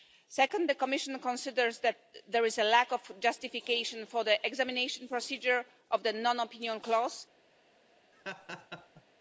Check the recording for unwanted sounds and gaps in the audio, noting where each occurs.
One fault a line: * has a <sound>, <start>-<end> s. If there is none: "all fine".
* has a laugh, 8.1-9.0 s